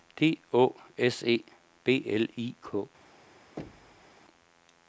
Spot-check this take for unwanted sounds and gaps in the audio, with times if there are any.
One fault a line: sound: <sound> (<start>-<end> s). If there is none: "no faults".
sound: thud (3.6-4.2 s)